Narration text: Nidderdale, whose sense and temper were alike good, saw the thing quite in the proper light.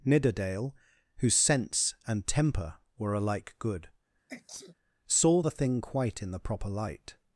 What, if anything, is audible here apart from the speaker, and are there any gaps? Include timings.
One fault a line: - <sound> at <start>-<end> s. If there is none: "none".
- sneeze at 4.3-4.7 s